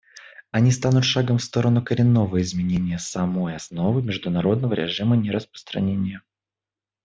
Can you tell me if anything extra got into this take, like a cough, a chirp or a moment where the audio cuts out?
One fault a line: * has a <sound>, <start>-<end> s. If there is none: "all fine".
all fine